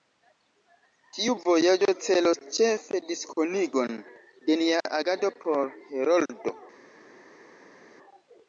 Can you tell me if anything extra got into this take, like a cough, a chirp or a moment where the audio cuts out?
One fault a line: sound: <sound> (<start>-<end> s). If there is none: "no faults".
no faults